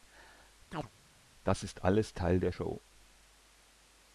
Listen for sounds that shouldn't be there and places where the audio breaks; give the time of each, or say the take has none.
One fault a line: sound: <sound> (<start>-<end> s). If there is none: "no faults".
sound: chirp (0.7-0.9 s)